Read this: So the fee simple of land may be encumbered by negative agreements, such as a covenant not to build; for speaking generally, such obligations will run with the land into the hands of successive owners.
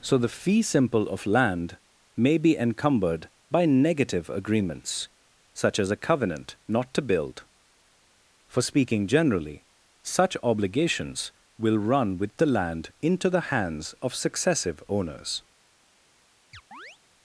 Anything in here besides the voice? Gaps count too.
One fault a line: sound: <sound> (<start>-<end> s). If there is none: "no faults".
sound: chirp (16.5-17.0 s)